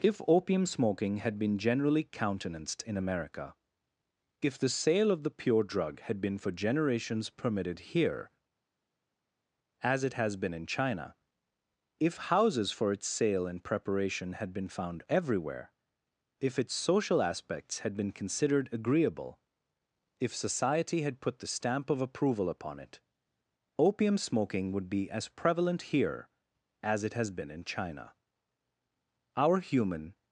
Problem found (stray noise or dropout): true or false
false